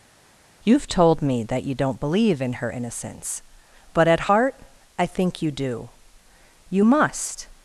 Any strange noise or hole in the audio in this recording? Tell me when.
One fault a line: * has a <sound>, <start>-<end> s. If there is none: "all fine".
all fine